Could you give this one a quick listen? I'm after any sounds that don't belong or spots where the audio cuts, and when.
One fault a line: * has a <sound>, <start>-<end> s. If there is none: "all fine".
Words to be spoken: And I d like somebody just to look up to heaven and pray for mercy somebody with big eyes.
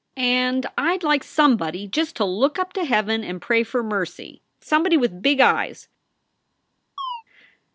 * has a chirp, 7.0-7.2 s